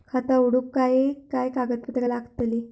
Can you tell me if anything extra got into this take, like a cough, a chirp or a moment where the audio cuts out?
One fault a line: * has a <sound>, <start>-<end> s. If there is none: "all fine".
all fine